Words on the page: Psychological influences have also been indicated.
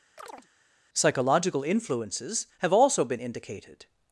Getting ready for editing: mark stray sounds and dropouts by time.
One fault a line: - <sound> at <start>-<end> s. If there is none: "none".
- chirp at 0.2-0.5 s